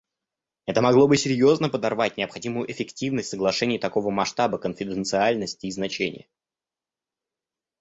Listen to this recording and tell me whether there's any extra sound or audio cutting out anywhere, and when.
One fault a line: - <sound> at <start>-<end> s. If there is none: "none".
none